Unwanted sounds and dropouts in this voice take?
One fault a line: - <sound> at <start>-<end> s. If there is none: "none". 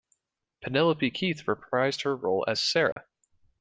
- dropout at 2.9-3.0 s